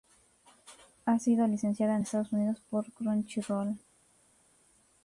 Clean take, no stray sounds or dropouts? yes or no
yes